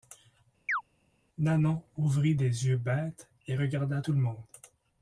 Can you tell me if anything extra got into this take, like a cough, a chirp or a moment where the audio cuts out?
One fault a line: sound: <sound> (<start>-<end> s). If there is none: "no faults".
sound: chirp (0.7-0.8 s)